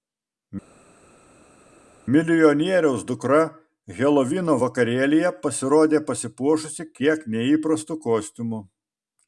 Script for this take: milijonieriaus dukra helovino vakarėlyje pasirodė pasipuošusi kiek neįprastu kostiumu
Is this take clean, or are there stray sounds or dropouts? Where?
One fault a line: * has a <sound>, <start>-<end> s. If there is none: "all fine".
all fine